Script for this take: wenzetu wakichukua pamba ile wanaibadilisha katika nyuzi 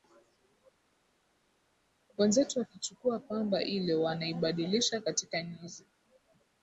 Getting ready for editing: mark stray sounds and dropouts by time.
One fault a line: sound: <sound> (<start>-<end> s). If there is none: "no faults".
no faults